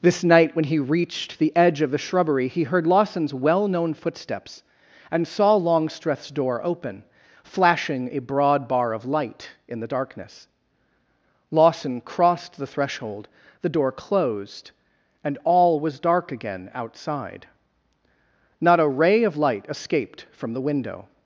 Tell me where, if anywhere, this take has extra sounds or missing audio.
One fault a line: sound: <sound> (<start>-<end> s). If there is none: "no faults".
no faults